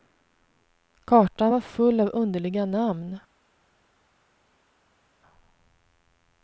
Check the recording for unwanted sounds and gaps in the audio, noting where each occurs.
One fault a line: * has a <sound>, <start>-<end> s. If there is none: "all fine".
all fine